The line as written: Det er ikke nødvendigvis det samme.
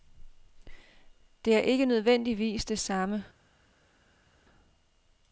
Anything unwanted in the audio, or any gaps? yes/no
no